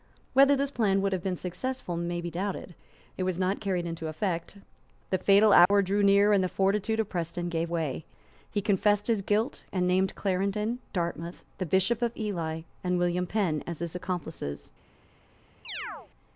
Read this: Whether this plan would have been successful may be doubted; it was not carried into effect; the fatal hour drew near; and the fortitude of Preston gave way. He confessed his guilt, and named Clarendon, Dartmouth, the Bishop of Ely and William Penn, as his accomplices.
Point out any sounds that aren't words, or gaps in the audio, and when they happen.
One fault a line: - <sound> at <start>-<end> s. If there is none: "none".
- dropout at 5.7-5.7 s
- chirp at 15.6-16.1 s